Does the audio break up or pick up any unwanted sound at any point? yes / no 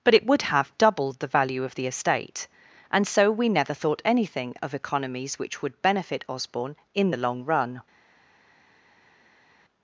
no